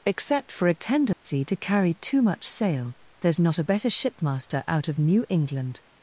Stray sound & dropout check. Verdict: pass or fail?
fail